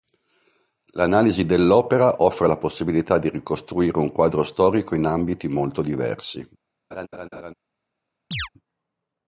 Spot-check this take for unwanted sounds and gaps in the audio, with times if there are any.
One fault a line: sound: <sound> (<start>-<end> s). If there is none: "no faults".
sound: laugh (6.9-7.5 s)
sound: chirp (8.3-8.5 s)